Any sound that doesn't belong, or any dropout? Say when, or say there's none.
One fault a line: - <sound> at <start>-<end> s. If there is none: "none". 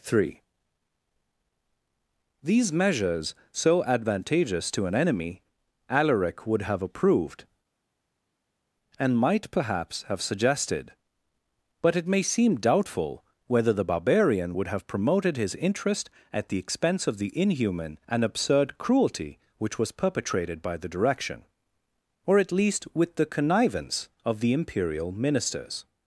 none